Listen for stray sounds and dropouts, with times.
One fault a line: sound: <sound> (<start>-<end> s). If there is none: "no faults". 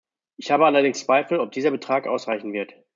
no faults